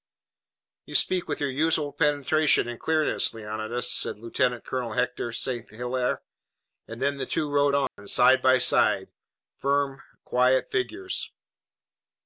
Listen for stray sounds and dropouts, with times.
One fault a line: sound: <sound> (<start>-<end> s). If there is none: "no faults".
sound: dropout (7.9-8.0 s)